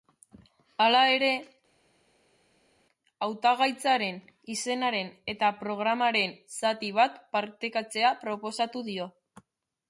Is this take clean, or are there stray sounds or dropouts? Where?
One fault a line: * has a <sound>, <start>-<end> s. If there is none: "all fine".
all fine